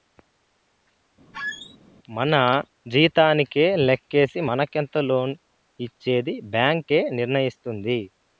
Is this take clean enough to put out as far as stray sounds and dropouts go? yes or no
no